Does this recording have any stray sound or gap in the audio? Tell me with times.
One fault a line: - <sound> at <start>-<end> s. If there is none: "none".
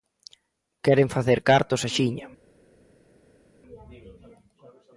none